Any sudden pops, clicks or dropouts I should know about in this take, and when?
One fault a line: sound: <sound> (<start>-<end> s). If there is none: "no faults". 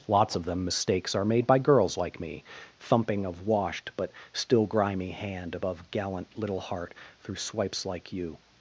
no faults